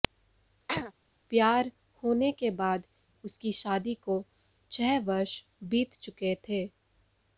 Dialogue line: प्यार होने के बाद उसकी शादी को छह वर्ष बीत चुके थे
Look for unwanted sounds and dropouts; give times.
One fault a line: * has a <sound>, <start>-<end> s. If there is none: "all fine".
* has a throat clearing, 0.7-0.9 s